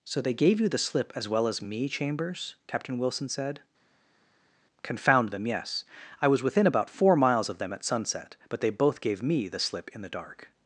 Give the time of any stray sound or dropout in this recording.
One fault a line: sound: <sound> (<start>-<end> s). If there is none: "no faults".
no faults